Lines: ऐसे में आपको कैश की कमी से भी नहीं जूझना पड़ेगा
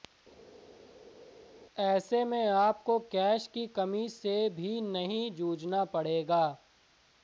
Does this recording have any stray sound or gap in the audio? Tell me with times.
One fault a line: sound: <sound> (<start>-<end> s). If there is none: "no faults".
no faults